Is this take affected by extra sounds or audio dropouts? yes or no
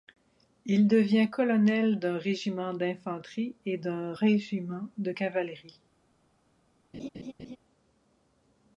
yes